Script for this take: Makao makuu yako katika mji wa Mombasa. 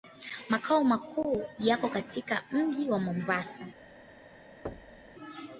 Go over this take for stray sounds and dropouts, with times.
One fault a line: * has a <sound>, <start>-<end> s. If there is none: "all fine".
* has a thud, 4.7-5.2 s